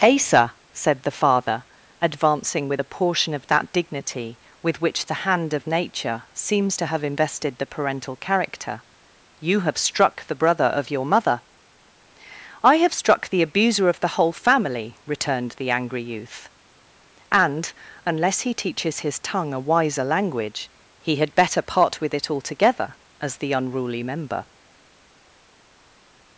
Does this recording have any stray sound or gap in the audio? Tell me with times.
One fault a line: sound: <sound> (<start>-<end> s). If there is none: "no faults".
no faults